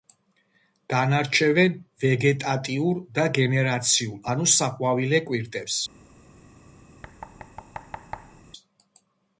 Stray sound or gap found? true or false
true